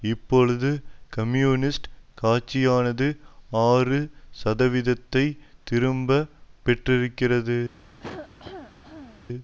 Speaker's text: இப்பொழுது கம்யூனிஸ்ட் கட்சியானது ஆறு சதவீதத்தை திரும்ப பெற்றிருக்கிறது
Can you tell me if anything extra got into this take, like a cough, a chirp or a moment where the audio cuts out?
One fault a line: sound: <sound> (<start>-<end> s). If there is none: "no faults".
sound: cough (8.0-9.3 s)